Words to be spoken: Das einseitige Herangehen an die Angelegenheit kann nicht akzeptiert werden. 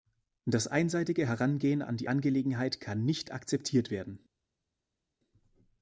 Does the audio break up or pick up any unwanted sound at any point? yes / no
no